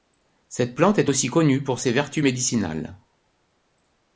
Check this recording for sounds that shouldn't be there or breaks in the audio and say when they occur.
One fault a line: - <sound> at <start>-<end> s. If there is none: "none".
none